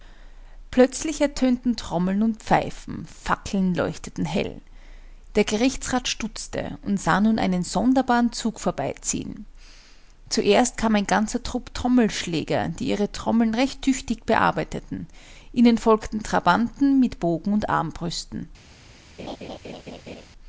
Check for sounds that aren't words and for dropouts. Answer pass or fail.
fail